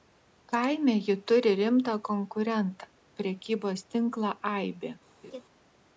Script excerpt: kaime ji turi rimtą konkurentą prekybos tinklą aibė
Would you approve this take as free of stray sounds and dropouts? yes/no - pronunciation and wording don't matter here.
no